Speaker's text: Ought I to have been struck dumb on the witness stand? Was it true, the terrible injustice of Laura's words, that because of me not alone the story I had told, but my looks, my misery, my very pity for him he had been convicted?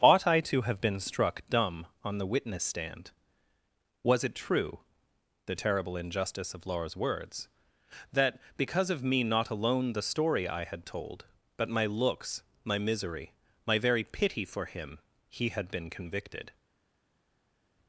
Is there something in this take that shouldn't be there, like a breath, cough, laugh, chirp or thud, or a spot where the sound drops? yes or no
no